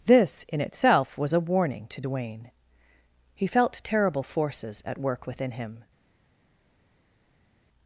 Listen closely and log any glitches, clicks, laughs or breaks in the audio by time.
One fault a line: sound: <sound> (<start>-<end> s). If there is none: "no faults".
no faults